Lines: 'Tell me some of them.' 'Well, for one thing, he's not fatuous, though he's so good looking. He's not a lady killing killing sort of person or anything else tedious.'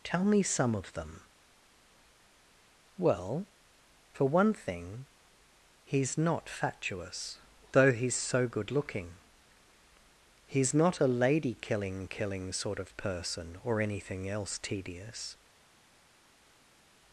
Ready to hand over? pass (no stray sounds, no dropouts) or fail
pass